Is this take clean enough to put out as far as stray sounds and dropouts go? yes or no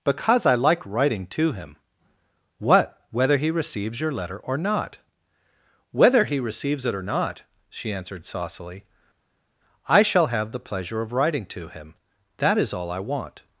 yes